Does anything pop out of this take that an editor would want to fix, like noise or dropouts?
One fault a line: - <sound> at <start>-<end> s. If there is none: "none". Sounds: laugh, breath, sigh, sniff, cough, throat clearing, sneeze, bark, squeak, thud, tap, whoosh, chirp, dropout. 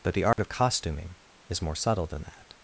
- dropout at 0.3-0.4 s